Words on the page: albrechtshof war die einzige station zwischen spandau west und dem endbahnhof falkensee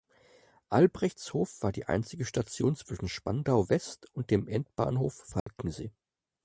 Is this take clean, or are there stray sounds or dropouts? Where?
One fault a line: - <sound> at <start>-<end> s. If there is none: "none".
- dropout at 5.4-5.5 s